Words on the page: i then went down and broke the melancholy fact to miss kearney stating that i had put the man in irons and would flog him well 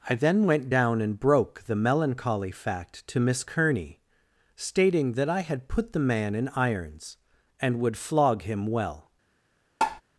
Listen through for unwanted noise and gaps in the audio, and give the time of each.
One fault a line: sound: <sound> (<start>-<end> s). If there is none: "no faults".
sound: tap (9.8-10.0 s)